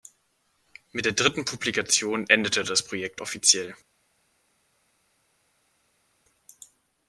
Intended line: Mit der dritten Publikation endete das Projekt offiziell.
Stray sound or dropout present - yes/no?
no